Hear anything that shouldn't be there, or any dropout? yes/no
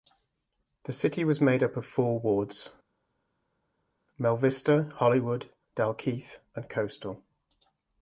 no